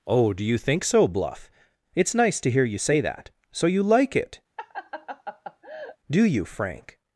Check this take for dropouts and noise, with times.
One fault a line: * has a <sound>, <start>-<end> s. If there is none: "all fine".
* has a laugh, 4.6-6.0 s